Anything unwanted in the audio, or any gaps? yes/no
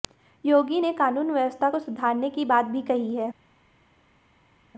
no